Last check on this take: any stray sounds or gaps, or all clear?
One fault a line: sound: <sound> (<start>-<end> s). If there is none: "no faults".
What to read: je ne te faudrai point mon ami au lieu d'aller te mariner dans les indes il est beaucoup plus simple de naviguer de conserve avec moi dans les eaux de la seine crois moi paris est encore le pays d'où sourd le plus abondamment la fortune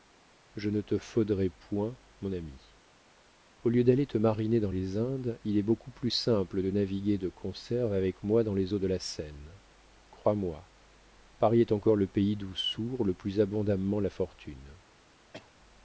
sound: cough (15.3-15.5 s)